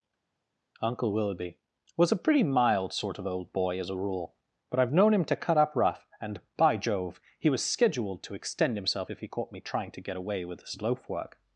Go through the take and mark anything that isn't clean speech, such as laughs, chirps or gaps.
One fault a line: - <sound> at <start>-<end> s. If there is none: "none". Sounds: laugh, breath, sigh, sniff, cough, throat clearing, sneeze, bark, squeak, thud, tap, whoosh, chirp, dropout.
none